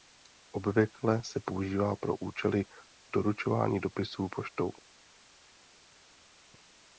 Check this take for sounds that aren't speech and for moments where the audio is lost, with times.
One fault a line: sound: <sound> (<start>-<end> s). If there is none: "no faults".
no faults